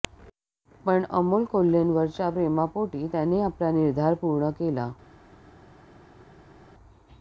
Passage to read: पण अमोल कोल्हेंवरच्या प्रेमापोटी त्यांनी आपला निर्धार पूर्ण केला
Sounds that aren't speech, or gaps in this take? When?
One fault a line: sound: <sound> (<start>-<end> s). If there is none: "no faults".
no faults